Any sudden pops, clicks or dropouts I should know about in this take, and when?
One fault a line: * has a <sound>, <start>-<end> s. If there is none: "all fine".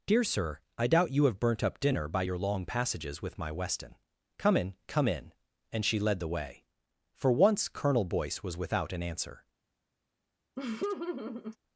* has a laugh, 10.6-11.6 s